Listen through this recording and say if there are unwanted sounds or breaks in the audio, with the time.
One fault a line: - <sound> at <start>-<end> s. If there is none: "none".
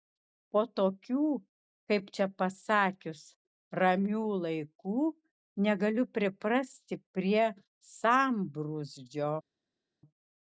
none